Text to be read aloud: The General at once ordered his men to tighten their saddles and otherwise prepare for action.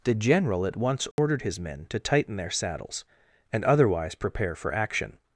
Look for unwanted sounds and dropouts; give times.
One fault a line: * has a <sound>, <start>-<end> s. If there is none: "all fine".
* has a dropout, 1.1-1.2 s